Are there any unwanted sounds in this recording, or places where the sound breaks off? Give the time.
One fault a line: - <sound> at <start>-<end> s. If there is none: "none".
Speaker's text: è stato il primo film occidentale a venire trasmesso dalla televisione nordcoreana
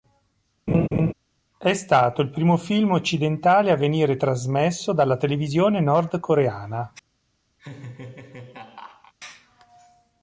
- laugh at 0.7-1.1 s
- laugh at 7.6-9.1 s